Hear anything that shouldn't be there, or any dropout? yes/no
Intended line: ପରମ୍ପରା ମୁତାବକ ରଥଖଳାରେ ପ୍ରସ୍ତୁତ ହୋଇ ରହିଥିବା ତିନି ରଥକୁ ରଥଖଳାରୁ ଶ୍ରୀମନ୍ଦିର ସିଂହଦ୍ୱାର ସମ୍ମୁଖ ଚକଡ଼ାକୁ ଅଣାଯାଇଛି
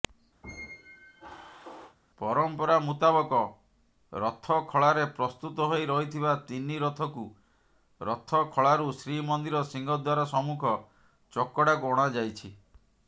yes